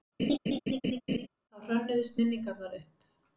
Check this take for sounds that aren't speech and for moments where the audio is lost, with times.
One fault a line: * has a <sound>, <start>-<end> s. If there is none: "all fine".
* has a laugh, 0.2-1.3 s